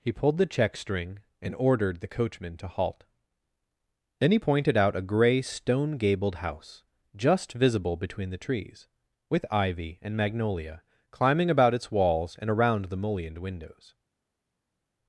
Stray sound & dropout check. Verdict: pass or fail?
pass